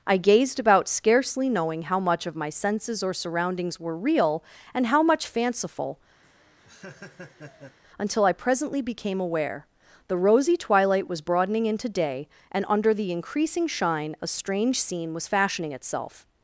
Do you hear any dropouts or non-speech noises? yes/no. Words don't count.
yes